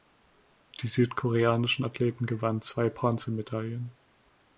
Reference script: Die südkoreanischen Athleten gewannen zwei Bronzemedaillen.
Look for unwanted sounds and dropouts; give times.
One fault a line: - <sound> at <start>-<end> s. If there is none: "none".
none